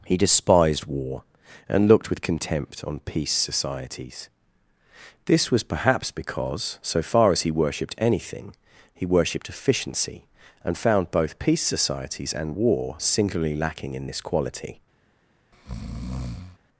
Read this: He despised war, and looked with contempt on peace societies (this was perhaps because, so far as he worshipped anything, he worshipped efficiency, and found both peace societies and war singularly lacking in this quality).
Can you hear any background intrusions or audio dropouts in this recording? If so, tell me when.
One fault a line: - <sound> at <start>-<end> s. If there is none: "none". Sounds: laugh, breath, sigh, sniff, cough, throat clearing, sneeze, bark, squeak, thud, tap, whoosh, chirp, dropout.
- breath at 15.5-16.6 s